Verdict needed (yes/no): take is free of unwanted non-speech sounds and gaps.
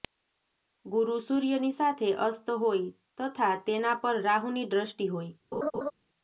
no